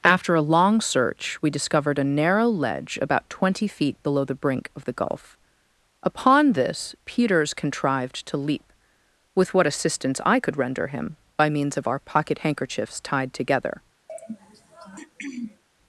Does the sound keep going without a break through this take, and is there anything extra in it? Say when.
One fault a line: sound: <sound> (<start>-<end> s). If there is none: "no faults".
sound: throat clearing (14.1-15.6 s)